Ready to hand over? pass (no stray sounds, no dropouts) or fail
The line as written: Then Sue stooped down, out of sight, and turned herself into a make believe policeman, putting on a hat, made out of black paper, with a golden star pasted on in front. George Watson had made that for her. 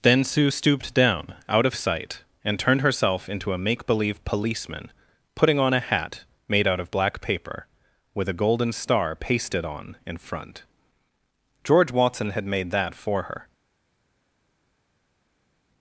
pass